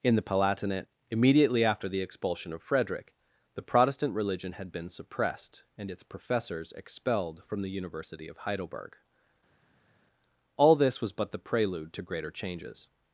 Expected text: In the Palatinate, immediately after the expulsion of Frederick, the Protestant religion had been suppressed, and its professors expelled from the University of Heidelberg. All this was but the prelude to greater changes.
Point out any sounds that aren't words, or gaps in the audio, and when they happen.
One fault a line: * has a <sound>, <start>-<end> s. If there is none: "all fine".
all fine